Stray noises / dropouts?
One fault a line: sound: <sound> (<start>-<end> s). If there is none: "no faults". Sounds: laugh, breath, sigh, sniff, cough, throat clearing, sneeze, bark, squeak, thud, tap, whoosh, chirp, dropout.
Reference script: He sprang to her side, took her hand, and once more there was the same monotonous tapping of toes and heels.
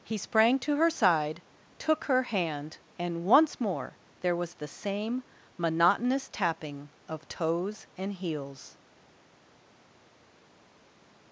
no faults